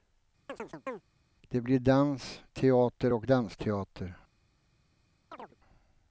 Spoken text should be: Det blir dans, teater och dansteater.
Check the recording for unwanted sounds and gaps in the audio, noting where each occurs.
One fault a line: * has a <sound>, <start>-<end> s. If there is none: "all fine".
* has a chirp, 0.5-1.0 s
* has a chirp, 5.3-5.6 s